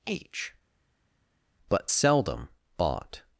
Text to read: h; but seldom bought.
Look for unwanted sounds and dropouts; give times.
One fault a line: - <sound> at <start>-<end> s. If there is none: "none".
none